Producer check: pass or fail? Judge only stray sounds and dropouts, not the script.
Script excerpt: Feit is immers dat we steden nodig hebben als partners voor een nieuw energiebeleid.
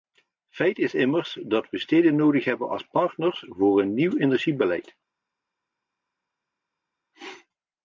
pass